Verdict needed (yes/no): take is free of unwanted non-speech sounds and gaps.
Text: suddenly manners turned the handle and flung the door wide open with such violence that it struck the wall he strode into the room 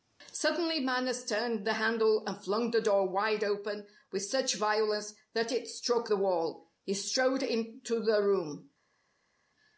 yes